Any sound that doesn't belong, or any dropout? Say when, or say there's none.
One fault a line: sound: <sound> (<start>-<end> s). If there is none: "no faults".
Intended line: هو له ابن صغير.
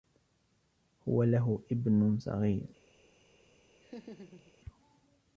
sound: laugh (3.8-4.5 s)